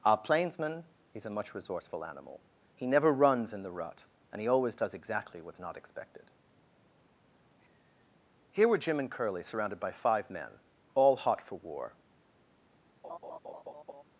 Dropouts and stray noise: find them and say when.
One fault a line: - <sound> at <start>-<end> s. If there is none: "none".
- laugh at 13.0-14.0 s